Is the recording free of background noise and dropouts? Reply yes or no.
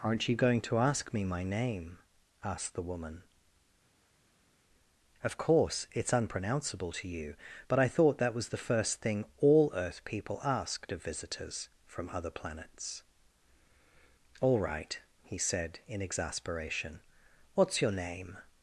yes